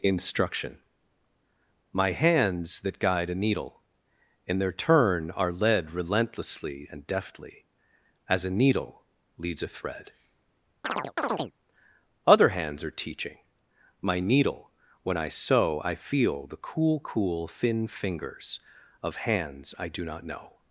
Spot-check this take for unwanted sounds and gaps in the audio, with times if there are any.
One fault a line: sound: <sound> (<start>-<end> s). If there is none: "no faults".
sound: chirp (10.8-11.5 s)